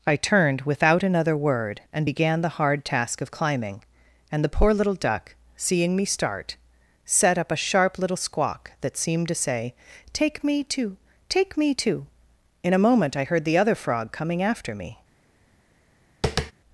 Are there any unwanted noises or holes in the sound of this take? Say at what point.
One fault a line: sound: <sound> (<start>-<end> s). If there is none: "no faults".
sound: tap (16.2-16.5 s)